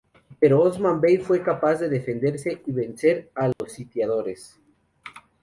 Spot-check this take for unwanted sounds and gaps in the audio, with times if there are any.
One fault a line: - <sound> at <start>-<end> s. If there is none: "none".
- dropout at 3.5-3.6 s